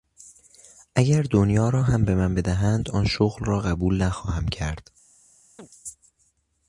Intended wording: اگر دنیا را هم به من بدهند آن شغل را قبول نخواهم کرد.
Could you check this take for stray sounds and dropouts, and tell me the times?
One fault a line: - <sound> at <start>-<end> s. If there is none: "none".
- chirp at 5.6-5.7 s